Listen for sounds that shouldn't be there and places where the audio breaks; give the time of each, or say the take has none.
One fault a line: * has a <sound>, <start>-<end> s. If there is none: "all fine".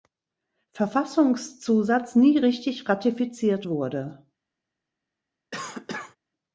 * has a cough, 5.5-6.2 s